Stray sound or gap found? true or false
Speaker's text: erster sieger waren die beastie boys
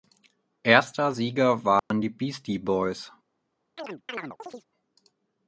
true